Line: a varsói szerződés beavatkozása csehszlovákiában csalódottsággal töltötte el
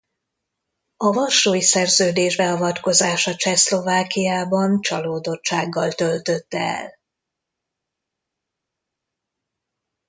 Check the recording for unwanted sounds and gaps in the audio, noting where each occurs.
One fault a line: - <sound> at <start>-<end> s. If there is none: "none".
none